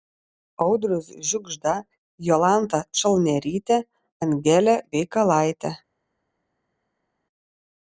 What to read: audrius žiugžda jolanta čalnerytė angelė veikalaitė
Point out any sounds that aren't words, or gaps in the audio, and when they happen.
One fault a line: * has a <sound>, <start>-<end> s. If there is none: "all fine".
all fine